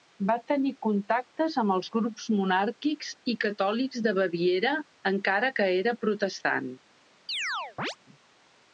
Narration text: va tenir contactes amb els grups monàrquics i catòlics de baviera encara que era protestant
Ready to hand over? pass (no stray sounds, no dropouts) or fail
fail